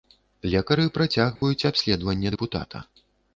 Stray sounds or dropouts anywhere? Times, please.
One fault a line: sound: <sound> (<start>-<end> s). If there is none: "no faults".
sound: dropout (1.4-1.4 s)